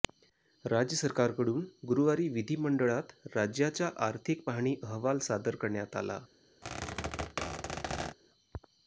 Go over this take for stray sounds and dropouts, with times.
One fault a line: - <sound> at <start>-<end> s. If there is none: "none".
- squeak at 6.6-8.2 s